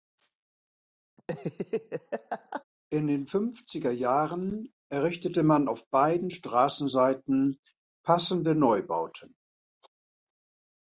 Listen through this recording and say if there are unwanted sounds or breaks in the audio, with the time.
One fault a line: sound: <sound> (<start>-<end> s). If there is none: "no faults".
sound: laugh (1.2-2.6 s)